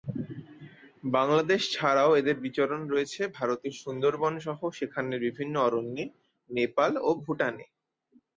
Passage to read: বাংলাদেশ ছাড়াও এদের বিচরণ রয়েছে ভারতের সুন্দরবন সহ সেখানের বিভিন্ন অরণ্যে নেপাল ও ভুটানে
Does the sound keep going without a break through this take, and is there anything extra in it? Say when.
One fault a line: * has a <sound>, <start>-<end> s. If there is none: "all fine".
all fine